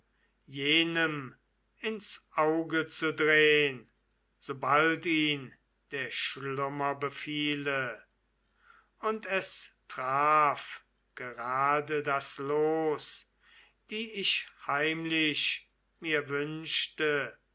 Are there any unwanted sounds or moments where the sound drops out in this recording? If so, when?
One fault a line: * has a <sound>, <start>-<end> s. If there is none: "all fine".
all fine